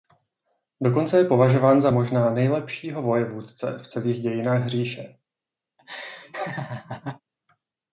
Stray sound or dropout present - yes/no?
yes